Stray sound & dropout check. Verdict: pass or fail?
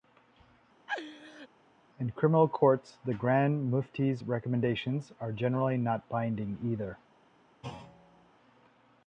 fail